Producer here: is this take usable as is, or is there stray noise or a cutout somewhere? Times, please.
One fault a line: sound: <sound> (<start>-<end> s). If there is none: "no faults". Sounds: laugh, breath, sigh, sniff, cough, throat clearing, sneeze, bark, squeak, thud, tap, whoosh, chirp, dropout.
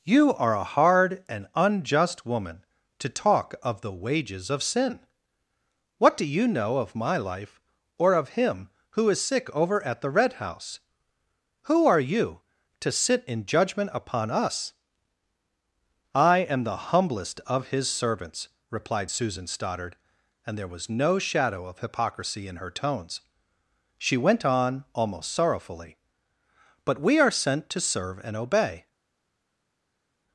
no faults